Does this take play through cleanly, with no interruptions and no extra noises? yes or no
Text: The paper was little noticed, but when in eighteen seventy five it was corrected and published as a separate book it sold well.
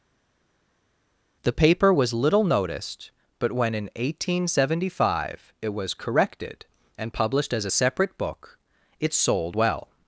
yes